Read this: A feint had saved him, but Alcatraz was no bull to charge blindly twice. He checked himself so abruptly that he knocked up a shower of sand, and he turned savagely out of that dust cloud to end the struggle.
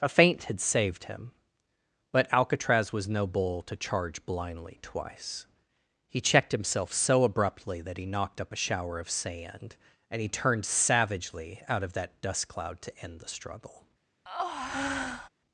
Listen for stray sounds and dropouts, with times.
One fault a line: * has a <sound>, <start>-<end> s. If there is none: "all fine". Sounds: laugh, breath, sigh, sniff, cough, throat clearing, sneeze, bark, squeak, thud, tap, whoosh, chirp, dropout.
* has a breath, 14.3-15.3 s